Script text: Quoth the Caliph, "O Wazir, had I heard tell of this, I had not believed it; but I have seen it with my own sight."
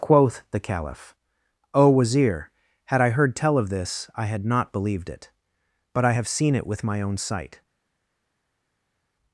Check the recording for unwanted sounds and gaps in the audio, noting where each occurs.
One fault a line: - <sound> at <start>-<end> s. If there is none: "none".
none